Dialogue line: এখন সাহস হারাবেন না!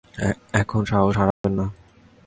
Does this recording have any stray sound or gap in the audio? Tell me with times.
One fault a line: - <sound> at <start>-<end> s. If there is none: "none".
- dropout at 1.3-1.4 s